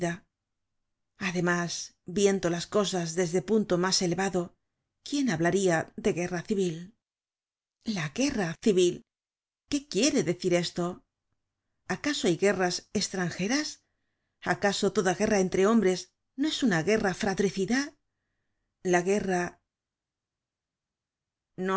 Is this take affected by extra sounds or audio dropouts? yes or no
no